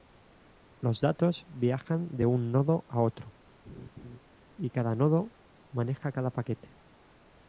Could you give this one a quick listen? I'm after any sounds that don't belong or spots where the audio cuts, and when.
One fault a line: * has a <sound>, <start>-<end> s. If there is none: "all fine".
* has a laugh, 3.6-4.2 s